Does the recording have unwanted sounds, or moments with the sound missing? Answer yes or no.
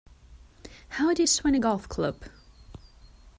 no